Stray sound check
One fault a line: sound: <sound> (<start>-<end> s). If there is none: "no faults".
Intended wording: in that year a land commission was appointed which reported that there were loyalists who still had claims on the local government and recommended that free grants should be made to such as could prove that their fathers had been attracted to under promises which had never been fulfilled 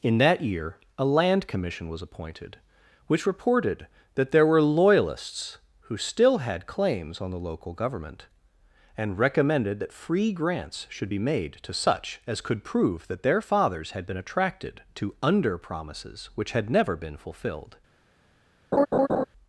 sound: laugh (18.7-19.2 s)